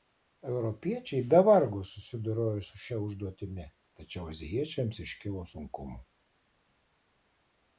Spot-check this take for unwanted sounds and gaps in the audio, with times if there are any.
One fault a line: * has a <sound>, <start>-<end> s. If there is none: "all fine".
all fine